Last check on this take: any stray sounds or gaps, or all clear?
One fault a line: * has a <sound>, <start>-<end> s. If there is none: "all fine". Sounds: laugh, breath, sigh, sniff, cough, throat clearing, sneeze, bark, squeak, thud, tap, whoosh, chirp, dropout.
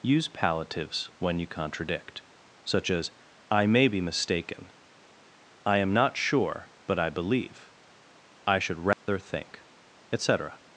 * has a dropout, 8.9-9.1 s